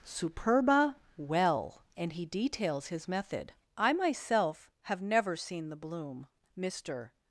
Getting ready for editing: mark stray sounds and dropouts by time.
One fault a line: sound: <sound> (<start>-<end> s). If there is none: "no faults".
no faults